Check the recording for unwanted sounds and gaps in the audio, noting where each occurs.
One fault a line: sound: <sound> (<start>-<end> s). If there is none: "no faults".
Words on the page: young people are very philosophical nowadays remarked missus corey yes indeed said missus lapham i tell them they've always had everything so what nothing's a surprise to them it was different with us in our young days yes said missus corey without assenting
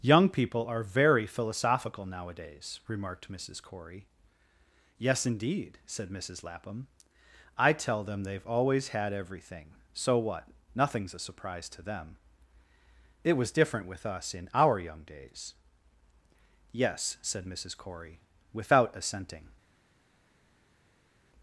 no faults